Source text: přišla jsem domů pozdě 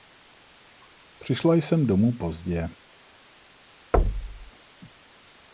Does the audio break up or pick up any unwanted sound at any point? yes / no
yes